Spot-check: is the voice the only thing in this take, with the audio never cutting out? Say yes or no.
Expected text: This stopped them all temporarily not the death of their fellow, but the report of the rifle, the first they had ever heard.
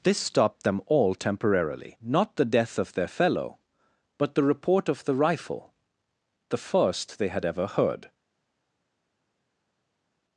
yes